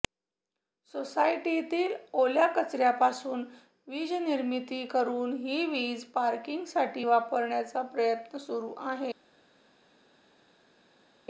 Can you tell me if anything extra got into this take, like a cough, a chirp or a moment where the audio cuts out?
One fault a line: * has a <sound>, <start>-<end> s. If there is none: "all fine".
all fine